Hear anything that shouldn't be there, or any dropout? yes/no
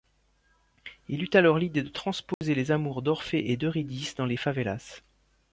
yes